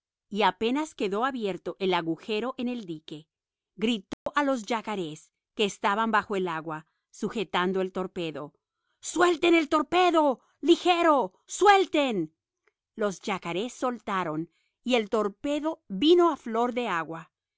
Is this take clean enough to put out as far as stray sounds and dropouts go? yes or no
no